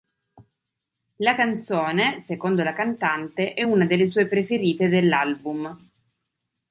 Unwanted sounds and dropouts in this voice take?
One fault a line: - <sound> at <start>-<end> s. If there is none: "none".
none